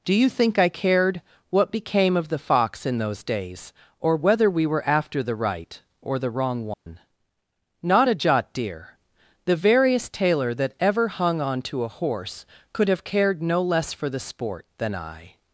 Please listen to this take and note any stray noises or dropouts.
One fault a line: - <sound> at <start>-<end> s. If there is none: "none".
- dropout at 6.7-6.9 s